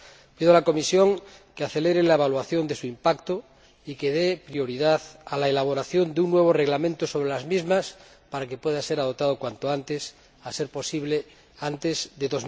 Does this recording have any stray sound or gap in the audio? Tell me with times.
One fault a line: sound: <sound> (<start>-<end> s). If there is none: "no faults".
no faults